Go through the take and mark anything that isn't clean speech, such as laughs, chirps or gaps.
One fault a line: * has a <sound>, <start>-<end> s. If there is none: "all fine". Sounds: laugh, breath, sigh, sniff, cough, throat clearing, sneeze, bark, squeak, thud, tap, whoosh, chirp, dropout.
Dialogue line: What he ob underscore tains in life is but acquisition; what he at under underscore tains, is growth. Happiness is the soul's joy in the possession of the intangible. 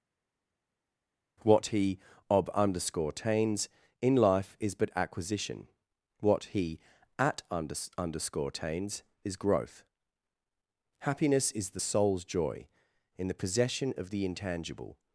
all fine